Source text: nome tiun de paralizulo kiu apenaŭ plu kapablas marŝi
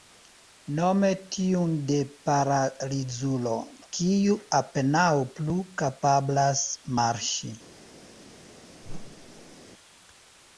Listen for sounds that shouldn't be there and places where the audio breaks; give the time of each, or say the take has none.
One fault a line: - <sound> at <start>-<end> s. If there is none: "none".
- whoosh at 8.8-9.6 s